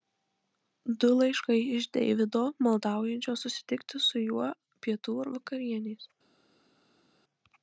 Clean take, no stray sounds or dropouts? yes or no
yes